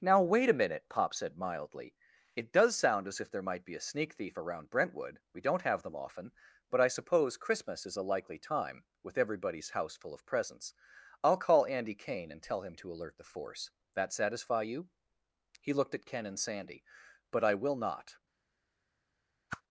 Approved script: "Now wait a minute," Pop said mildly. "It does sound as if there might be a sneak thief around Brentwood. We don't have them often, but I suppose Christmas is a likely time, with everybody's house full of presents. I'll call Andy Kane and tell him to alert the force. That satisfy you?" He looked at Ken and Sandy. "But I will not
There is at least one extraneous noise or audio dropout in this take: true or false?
true